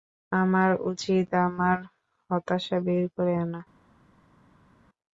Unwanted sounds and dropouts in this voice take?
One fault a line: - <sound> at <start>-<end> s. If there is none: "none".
none